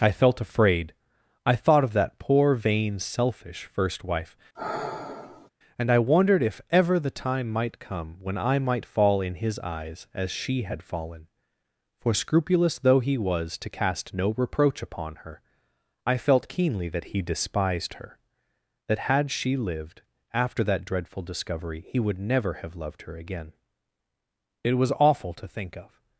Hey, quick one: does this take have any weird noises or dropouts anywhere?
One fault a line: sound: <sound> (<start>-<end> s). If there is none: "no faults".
sound: sigh (4.5-5.5 s)